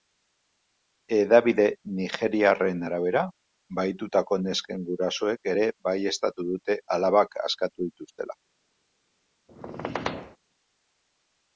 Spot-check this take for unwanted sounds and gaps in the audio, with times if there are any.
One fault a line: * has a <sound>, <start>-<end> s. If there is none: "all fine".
* has a squeak, 9.5-10.4 s